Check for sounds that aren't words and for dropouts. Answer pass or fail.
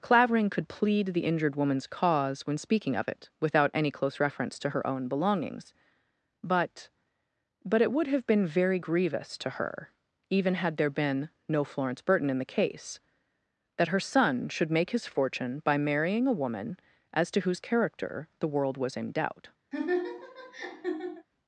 fail